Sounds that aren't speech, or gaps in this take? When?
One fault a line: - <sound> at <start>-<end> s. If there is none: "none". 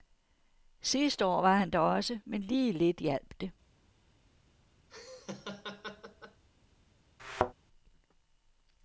- laugh at 4.9-6.4 s
- thud at 7.2-7.5 s